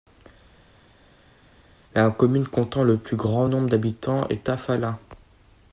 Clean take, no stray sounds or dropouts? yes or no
yes